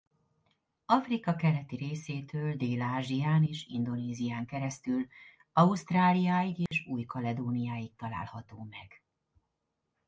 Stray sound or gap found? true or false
true